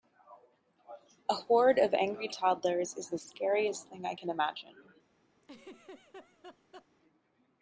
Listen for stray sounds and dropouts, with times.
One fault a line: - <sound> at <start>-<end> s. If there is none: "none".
- laugh at 5.4-6.9 s